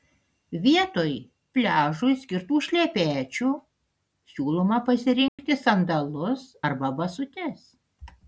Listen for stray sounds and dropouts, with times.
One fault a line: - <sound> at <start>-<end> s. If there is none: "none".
- dropout at 5.3-5.4 s